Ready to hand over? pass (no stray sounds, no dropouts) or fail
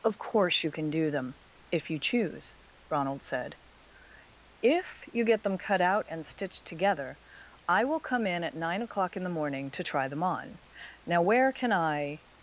pass